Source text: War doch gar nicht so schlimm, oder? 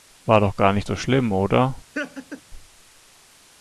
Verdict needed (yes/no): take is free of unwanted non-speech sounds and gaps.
no